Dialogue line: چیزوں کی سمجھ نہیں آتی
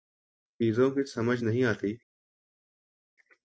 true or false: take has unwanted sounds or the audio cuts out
false